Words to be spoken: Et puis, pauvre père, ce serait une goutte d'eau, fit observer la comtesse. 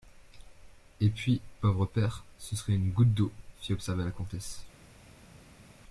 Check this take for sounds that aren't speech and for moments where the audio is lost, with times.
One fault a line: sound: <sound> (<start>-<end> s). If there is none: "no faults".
no faults